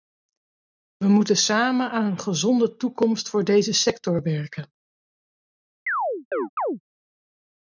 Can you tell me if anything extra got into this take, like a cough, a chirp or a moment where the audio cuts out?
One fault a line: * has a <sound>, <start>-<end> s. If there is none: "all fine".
* has a chirp, 5.9-6.8 s